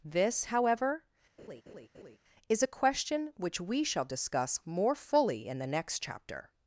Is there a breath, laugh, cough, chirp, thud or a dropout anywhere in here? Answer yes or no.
yes